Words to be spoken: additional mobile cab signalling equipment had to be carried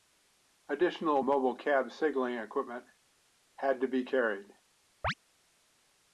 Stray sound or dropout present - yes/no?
yes